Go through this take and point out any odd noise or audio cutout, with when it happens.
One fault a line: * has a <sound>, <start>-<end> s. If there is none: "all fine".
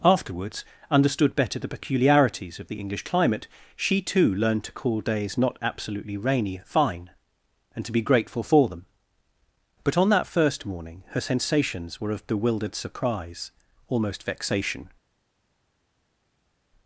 all fine